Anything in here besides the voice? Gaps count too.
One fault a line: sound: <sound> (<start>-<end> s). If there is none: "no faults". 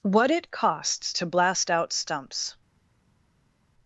no faults